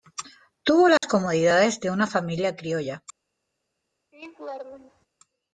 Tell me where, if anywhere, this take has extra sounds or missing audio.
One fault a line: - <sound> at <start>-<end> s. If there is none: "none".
- dropout at 1.0-1.0 s
- laugh at 4.1-5.1 s